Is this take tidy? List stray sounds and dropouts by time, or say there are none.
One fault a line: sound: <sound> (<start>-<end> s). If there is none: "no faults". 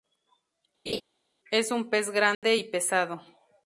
sound: laugh (0.9-1.0 s)
sound: dropout (2.3-2.4 s)